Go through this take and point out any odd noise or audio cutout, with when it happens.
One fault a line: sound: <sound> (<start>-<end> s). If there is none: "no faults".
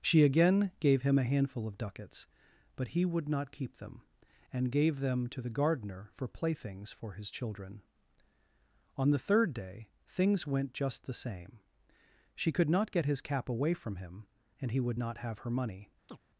sound: chirp (16.1-16.2 s)